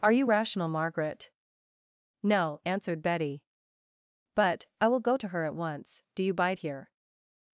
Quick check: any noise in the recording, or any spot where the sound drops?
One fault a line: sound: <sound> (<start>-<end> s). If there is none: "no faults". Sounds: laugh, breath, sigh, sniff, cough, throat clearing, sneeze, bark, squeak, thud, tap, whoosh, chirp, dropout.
no faults